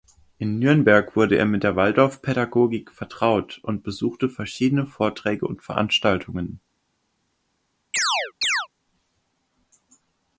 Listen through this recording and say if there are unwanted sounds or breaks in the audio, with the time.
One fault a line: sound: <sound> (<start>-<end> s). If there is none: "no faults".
sound: chirp (7.9-8.7 s)